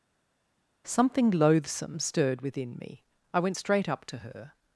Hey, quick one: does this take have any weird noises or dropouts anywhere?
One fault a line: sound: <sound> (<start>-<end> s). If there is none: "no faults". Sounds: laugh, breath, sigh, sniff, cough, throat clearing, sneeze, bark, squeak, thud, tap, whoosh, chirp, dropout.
no faults